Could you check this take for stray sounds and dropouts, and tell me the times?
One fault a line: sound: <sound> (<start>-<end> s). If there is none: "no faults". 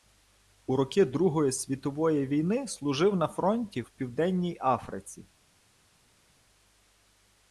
no faults